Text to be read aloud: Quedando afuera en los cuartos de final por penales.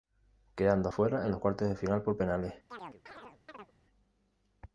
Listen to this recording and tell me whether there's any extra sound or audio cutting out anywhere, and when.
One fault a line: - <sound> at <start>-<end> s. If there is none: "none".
- chirp at 2.7-3.7 s